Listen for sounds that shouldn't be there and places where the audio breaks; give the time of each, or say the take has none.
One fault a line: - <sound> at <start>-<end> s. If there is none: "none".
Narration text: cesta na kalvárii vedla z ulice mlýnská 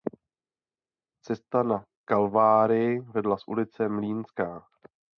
none